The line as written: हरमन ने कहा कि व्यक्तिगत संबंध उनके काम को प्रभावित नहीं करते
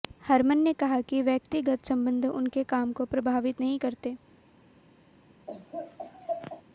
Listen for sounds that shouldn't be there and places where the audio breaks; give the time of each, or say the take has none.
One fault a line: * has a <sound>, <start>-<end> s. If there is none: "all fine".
* has a laugh, 5.5-6.6 s